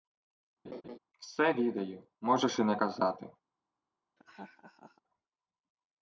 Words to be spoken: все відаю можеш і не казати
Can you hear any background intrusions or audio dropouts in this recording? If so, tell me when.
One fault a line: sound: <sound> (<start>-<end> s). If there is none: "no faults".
sound: laugh (0.6-1.0 s)
sound: laugh (4.2-5.0 s)